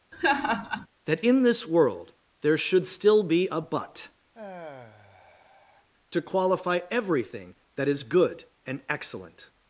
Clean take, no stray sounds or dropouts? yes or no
no